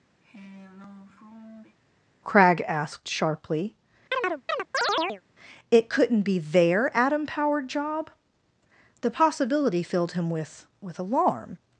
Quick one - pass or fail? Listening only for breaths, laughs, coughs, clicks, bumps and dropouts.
fail